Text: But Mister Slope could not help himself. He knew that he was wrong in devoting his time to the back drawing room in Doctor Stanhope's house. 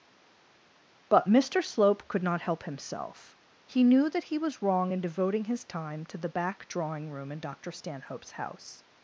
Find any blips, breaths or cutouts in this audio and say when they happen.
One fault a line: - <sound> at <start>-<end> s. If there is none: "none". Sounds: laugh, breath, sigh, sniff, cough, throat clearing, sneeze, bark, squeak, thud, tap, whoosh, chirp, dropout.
none